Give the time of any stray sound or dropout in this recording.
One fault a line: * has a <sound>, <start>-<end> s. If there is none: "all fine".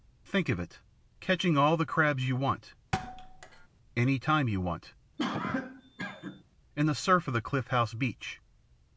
* has a thud, 2.9-3.7 s
* has a cough, 5.2-6.4 s